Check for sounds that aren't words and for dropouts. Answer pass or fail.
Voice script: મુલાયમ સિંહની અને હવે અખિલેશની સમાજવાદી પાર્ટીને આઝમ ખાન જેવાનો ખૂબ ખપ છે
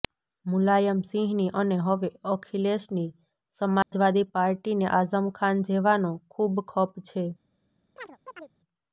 fail